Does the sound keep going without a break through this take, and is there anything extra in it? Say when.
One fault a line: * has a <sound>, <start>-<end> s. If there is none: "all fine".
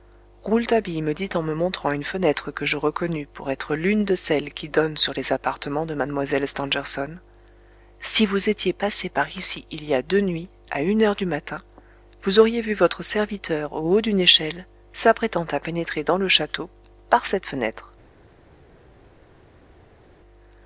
all fine